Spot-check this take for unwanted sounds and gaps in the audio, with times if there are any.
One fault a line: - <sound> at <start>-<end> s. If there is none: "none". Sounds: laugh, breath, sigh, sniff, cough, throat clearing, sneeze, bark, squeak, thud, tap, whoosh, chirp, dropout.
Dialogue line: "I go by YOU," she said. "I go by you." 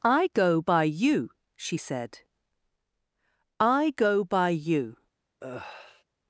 - sigh at 5.4-6.0 s